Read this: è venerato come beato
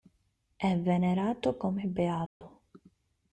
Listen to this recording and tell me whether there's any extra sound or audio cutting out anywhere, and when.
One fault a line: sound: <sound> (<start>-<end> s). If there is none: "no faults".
sound: dropout (2.3-2.4 s)